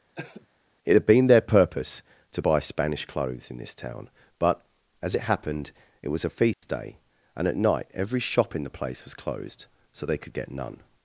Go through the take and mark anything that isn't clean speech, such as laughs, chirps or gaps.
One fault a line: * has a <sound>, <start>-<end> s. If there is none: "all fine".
* has a cough, 0.2-0.5 s
* has a dropout, 6.5-6.6 s